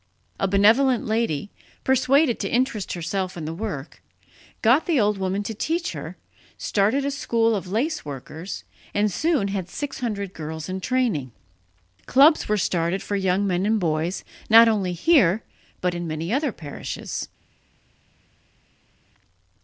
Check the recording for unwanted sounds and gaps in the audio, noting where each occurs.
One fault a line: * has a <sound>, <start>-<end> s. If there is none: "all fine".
all fine